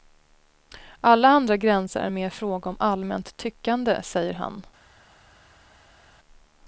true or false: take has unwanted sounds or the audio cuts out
false